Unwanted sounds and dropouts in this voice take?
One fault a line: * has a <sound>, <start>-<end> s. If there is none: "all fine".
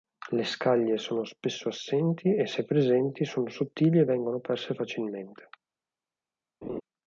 * has a laugh, 6.6-6.8 s